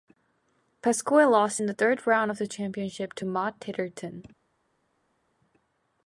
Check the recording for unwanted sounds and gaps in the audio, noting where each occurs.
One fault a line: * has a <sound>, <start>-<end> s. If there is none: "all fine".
all fine